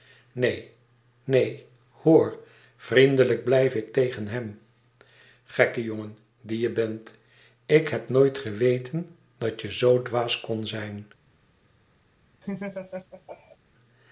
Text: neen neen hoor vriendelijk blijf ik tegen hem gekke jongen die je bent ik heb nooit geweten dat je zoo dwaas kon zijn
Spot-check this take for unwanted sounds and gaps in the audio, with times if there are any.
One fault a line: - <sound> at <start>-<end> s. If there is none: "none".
- laugh at 12.4-13.6 s